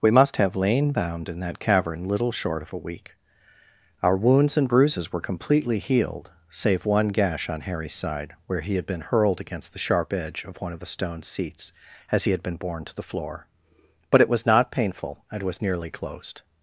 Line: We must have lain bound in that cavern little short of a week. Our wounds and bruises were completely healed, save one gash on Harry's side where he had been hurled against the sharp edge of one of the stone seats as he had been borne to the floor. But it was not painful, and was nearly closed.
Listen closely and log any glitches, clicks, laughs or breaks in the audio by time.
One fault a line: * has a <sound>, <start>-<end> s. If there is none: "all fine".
all fine